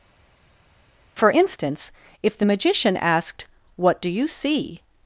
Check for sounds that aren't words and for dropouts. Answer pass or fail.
pass